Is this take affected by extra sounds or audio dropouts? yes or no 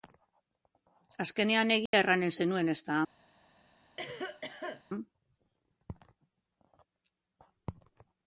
yes